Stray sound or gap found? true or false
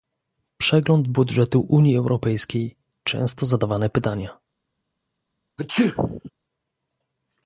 true